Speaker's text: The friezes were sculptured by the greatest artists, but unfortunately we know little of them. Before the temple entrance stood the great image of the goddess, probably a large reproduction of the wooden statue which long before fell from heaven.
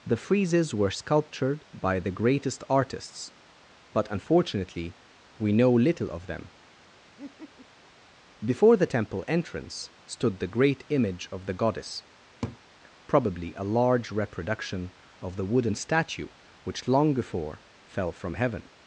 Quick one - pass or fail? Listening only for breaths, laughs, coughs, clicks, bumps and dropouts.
fail